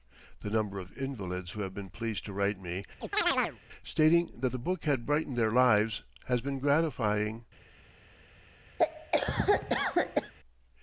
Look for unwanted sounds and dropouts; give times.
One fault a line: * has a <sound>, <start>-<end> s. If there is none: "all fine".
* has a chirp, 3.0-3.6 s
* has a cough, 8.8-10.3 s